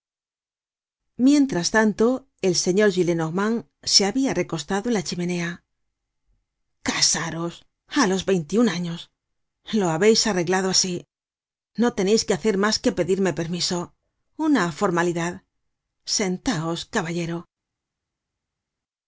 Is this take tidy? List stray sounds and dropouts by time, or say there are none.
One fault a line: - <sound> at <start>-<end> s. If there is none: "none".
none